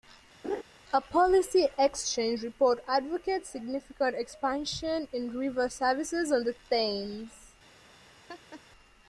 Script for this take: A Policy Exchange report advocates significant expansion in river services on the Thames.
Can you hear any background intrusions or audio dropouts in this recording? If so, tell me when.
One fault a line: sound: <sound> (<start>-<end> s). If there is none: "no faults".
sound: laugh (0.4-0.6 s)
sound: laugh (8.3-8.6 s)